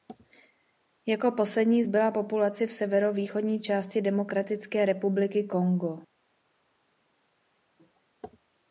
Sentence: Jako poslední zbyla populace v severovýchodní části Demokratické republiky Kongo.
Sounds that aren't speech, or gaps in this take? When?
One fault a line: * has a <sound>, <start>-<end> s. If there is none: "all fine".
all fine